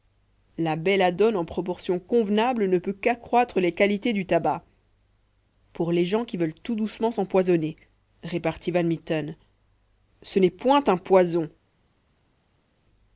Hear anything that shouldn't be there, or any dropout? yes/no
no